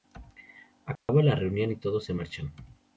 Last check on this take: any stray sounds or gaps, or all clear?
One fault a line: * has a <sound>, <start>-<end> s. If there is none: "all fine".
* has a dropout, 1.0-1.1 s